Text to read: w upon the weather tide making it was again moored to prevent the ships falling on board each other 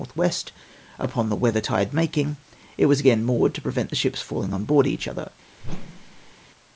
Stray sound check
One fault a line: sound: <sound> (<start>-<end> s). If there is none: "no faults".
sound: whoosh (5.6-6.3 s)